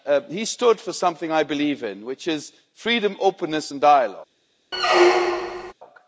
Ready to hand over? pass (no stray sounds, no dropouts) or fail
fail